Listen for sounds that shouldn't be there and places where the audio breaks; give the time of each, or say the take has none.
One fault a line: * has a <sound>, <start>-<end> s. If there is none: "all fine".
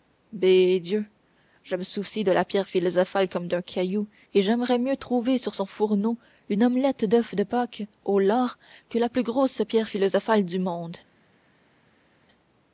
all fine